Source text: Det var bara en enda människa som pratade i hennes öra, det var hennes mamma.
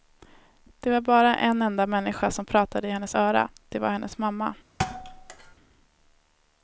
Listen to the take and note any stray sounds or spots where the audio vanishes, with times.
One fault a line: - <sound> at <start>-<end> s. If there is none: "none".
- thud at 4.8-5.6 s